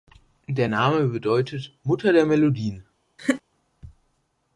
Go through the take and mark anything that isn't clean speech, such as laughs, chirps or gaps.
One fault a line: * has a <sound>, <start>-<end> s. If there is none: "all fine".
* has a laugh, 3.2-3.4 s